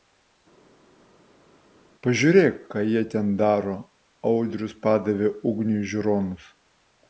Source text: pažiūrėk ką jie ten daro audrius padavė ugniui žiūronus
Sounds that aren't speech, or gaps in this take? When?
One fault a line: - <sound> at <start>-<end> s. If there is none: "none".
none